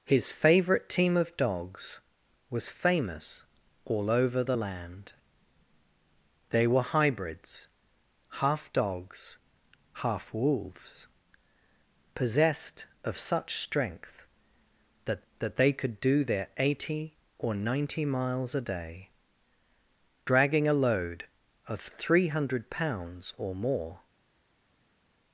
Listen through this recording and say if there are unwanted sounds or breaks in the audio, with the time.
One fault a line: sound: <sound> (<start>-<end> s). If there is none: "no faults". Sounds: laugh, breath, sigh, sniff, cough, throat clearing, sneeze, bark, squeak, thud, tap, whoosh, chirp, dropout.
no faults